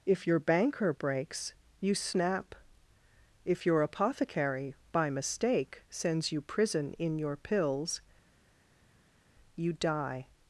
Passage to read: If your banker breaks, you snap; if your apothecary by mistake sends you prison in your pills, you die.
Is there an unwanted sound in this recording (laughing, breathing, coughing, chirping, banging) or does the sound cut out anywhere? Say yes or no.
no